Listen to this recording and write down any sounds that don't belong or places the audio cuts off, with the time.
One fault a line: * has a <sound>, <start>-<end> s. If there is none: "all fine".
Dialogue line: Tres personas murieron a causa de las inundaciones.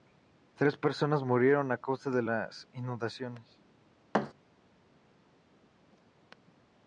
* has a thud, 4.1-4.3 s